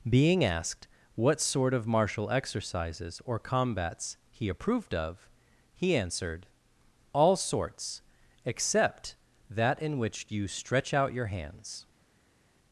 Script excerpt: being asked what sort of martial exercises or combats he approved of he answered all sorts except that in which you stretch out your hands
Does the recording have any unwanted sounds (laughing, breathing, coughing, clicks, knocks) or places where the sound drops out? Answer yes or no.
no